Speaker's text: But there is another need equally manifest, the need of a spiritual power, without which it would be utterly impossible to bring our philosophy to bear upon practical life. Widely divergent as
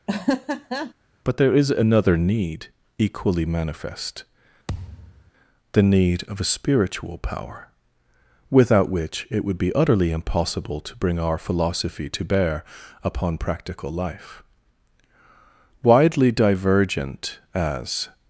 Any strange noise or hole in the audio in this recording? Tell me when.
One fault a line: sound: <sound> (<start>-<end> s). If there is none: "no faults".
sound: laugh (0.1-0.9 s)
sound: thud (4.7-5.3 s)